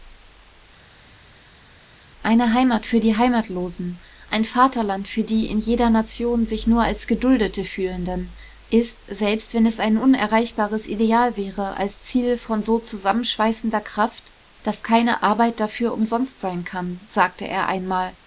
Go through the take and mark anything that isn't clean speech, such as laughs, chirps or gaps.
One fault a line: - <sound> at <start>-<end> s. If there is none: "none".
none